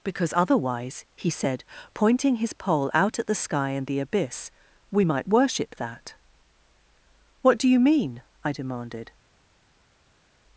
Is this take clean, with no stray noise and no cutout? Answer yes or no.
yes